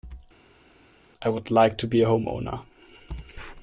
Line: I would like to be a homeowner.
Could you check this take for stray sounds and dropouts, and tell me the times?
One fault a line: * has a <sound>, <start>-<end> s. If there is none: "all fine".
all fine